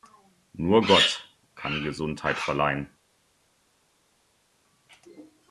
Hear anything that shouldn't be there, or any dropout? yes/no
no